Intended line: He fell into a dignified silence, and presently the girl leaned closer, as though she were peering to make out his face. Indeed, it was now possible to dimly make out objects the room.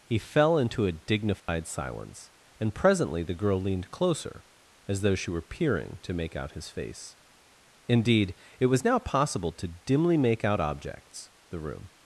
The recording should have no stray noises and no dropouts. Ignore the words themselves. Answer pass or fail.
fail